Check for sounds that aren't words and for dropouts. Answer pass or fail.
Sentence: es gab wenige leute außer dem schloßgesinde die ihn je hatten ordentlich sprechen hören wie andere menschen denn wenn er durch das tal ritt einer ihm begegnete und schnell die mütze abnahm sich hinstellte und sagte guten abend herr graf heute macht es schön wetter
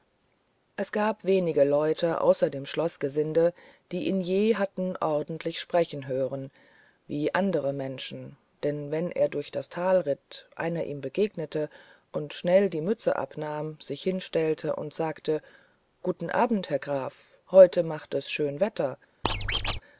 fail